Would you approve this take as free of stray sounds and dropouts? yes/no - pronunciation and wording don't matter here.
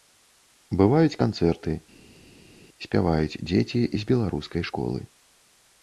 yes